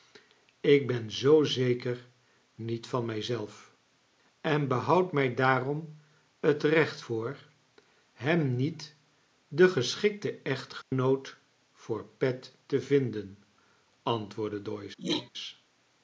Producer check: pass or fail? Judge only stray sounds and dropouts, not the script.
fail